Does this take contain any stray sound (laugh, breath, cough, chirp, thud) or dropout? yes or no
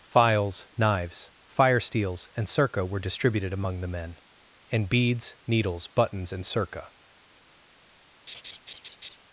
yes